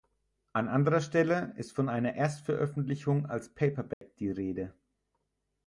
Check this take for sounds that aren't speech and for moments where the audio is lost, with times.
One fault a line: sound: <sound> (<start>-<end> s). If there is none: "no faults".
sound: dropout (3.9-4.0 s)